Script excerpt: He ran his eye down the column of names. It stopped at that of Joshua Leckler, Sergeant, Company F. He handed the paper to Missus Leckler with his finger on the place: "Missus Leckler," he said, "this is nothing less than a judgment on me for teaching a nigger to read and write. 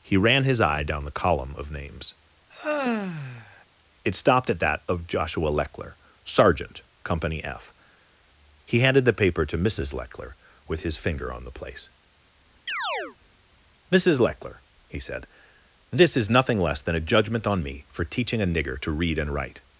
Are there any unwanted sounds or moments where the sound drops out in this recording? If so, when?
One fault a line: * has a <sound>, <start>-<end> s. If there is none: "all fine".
* has a sigh, 2.5-3.6 s
* has a chirp, 12.7-13.2 s